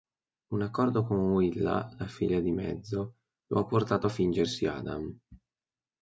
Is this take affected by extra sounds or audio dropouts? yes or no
no